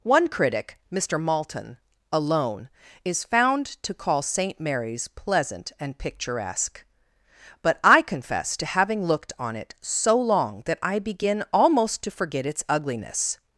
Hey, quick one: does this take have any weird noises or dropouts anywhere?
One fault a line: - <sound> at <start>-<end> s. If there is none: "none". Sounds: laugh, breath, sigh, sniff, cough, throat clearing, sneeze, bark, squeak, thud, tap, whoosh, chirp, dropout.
none